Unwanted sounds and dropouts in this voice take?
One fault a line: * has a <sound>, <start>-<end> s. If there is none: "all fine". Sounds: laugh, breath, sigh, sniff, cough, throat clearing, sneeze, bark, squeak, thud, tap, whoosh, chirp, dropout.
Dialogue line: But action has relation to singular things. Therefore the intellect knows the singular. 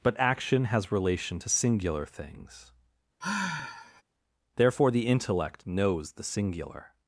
* has a sigh, 3.2-4.0 s